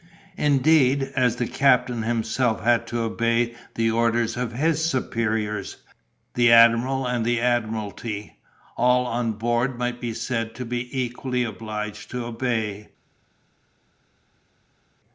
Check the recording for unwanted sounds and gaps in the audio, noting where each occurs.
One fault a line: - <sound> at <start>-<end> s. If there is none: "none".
none